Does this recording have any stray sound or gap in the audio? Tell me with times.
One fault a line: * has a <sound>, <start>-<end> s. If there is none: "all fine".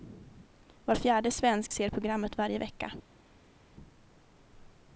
all fine